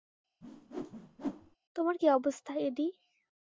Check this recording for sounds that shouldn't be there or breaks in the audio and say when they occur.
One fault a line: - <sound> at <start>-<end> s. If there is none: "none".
- whoosh at 0.4-1.6 s